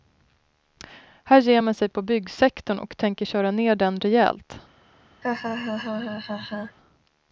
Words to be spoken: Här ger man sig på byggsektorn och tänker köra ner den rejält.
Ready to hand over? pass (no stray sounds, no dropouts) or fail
fail